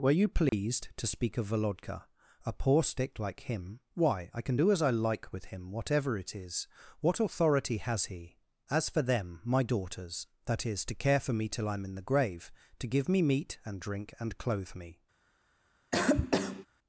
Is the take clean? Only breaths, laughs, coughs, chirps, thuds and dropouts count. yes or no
no